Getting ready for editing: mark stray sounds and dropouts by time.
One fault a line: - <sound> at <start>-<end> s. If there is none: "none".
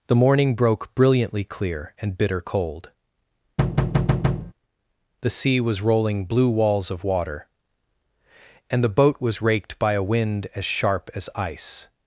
- thud at 3.6-4.5 s